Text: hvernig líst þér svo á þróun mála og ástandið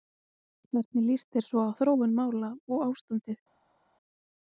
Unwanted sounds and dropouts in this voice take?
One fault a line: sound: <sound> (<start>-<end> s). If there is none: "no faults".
no faults